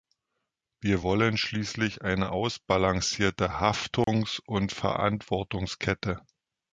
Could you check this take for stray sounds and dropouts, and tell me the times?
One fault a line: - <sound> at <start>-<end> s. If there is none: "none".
- dropout at 4.0-4.1 s